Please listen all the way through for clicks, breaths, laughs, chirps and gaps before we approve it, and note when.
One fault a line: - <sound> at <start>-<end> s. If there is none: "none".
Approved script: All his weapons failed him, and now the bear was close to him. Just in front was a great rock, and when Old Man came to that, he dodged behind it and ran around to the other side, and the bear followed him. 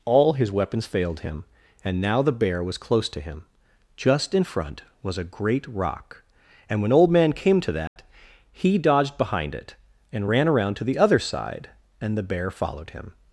- dropout at 7.9-8.0 s